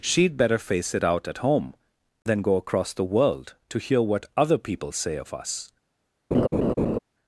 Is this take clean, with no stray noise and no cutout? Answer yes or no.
no